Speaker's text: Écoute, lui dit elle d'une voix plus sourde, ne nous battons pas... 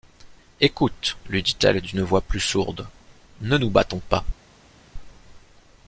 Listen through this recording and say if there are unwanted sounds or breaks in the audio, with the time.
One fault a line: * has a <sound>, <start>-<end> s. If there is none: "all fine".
all fine